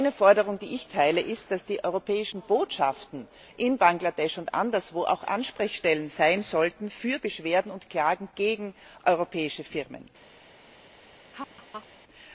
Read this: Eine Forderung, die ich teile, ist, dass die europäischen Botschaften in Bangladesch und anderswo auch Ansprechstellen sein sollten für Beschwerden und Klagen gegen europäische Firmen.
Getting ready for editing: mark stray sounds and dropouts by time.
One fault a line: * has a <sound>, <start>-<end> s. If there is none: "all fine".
* has a laugh, 11.3-11.9 s